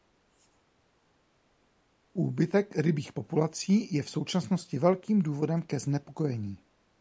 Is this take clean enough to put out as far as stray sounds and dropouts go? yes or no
yes